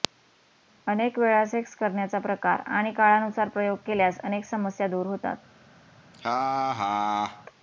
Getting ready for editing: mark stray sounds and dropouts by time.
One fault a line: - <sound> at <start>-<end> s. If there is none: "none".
- laugh at 6.1-7.5 s